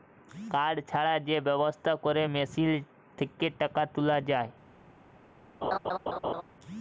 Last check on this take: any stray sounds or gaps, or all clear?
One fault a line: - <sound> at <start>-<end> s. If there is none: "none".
- laugh at 5.6-6.4 s